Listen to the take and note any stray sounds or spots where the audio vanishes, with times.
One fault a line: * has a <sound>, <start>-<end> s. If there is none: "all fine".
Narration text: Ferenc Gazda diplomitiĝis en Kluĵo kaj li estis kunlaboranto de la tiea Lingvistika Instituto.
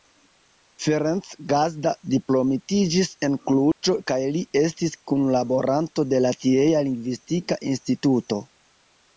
* has a dropout, 3.7-3.8 s